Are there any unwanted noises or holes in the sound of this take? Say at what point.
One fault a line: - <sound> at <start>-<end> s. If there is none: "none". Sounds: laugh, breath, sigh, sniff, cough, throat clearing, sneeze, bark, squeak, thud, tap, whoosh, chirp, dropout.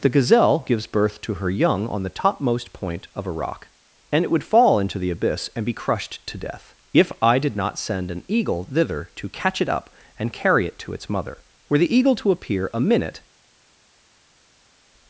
none